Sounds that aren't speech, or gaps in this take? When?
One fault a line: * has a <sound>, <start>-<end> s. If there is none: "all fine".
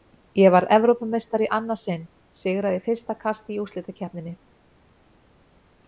all fine